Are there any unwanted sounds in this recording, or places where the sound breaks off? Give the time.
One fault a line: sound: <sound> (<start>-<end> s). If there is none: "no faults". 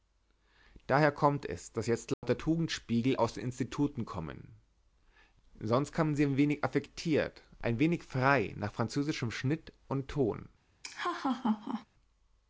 sound: dropout (2.1-2.2 s)
sound: laugh (10.8-11.9 s)